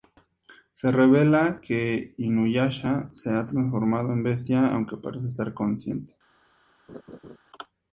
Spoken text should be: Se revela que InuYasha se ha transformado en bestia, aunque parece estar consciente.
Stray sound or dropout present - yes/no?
yes